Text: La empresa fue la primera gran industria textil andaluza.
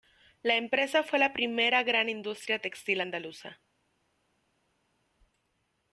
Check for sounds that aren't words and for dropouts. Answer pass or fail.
pass